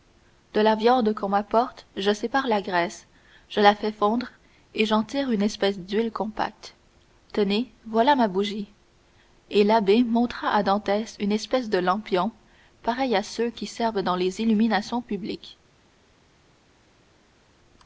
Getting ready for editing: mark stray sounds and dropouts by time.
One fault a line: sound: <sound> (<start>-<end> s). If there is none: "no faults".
no faults